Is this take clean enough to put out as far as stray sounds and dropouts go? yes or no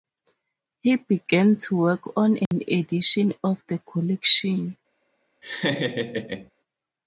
no